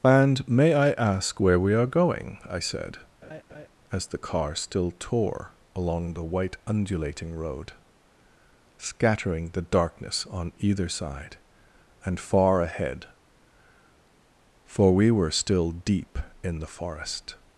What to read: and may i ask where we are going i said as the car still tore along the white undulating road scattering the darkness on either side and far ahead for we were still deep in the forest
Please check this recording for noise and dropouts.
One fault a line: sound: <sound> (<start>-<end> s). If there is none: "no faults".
sound: laugh (3.2-3.7 s)